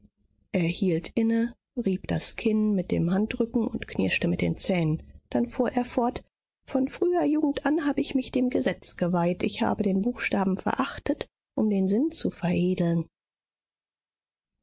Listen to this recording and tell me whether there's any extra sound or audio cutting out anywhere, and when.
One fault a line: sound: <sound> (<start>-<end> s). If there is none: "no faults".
no faults